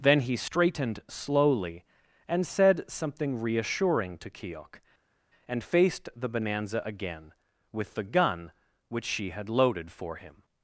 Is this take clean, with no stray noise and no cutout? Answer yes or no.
yes